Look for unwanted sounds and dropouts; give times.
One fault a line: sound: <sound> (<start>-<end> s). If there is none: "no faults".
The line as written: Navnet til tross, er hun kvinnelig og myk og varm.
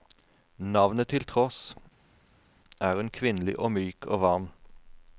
no faults